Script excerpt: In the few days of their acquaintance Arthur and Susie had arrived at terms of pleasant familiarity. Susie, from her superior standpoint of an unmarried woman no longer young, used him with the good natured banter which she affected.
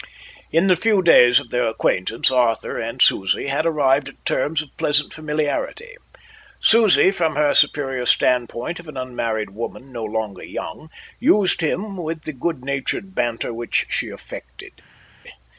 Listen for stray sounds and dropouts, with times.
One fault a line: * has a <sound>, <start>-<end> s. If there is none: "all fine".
all fine